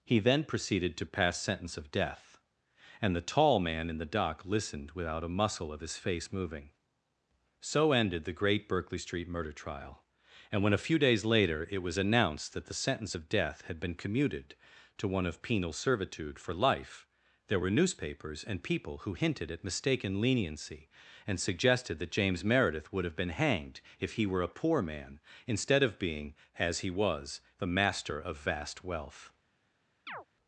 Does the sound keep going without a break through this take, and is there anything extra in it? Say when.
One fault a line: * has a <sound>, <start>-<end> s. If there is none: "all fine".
* has a chirp, 30.1-30.3 s